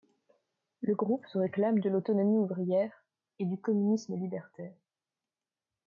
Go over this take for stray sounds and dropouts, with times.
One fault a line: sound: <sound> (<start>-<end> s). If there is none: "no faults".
no faults